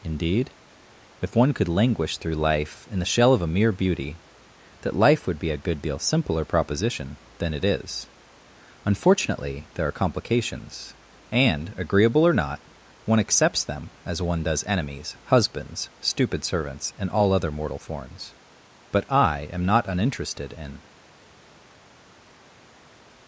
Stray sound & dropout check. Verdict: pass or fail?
pass